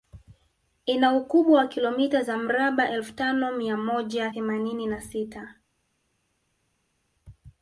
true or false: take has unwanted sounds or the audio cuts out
false